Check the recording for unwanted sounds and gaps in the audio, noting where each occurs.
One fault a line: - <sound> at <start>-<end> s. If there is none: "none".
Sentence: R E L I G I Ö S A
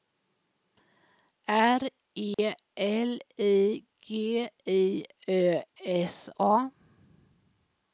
- dropout at 2.3-2.4 s